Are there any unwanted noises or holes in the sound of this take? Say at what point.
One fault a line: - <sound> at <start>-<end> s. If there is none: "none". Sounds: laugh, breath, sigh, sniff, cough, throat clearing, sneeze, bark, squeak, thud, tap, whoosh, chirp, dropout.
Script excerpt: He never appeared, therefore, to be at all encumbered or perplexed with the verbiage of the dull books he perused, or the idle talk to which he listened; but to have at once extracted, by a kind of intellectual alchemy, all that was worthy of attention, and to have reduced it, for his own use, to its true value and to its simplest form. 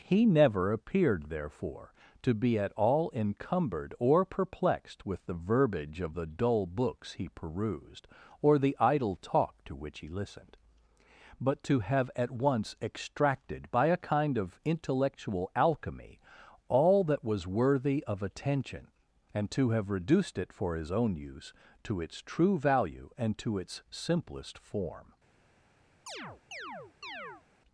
- chirp at 26.1-27.4 s